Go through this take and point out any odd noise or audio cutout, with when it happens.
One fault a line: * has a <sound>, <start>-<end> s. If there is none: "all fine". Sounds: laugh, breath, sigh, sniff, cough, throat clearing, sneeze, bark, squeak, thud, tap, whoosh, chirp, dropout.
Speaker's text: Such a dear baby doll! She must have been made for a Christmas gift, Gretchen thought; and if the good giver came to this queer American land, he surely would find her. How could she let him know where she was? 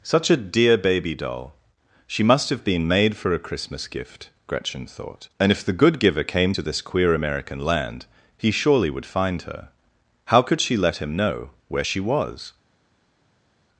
all fine